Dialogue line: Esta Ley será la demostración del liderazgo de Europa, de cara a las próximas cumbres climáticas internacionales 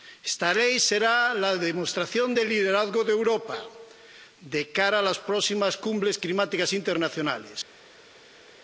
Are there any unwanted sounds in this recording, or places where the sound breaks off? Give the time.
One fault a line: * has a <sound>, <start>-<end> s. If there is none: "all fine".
all fine